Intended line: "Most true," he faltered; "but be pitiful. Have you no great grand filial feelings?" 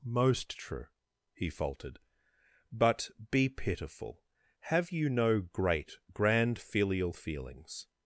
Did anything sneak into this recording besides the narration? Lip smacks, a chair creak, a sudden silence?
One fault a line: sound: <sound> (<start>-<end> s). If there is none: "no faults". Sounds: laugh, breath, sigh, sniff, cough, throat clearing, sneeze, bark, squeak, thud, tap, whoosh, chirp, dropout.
no faults